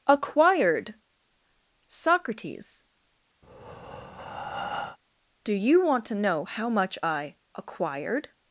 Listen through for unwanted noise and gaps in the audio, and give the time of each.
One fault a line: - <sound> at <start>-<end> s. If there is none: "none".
- breath at 3.4-5.0 s